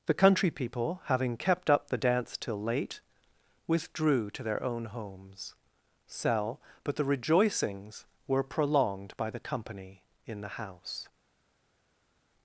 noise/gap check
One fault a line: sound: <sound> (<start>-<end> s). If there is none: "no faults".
no faults